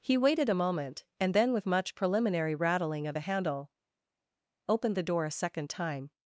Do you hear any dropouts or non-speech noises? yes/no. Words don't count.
no